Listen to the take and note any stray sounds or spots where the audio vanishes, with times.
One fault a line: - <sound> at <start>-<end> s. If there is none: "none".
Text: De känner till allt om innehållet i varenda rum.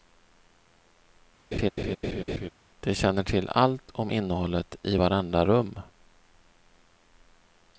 - laugh at 1.5-2.5 s